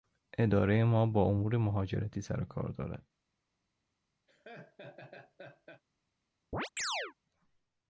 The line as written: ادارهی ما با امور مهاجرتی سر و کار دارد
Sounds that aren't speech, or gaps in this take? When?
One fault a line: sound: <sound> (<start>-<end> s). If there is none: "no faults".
sound: laugh (4.3-5.8 s)
sound: chirp (6.5-7.1 s)